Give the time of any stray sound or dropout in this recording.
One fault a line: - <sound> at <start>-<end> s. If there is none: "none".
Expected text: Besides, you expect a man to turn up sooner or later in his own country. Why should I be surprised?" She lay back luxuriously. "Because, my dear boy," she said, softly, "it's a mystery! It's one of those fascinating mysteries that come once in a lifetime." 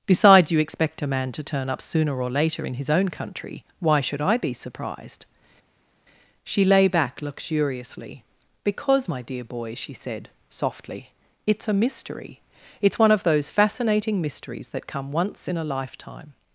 none